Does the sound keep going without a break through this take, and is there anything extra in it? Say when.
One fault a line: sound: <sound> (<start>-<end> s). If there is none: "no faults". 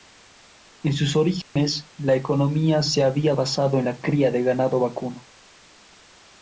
sound: dropout (1.4-1.6 s)